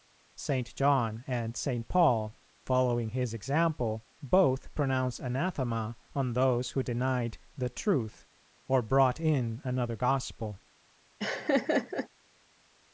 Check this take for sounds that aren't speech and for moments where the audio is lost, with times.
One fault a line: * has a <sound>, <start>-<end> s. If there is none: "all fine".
* has a laugh, 11.2-12.1 s